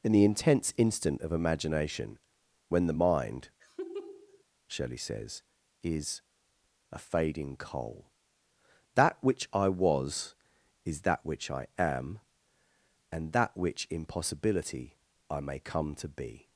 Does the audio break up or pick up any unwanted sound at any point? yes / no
yes